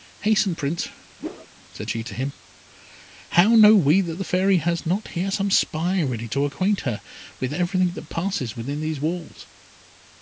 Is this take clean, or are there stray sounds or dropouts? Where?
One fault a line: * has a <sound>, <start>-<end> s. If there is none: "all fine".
* has a whoosh, 1.2-1.5 s